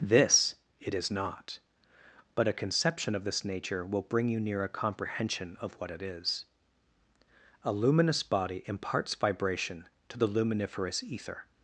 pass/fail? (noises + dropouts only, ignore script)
pass